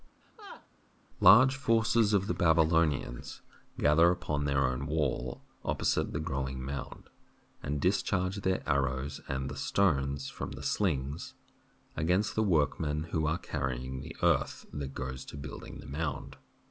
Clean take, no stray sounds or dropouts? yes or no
no